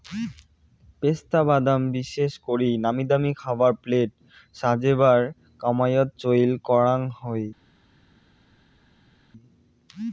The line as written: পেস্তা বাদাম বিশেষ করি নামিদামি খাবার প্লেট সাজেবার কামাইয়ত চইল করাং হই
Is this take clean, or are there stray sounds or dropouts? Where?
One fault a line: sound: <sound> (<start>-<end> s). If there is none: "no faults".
no faults